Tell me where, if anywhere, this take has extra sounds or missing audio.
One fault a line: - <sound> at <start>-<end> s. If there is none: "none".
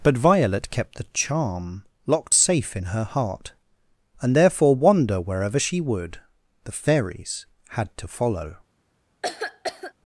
- cough at 9.2-9.9 s